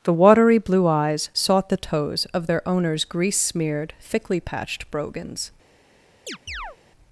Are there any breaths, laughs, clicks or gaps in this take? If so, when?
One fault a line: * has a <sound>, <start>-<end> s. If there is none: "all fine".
* has a chirp, 6.3-6.8 s